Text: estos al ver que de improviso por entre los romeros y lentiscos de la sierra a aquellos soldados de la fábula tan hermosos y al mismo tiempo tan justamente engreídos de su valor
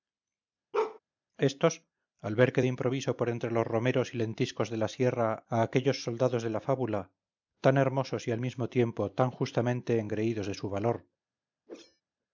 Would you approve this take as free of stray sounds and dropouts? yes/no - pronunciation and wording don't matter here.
no